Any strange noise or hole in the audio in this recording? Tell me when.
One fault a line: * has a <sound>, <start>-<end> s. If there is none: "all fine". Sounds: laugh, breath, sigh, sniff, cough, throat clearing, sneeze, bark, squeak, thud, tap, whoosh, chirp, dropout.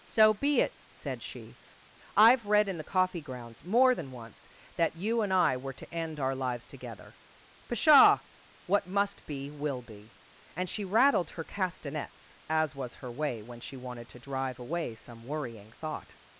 all fine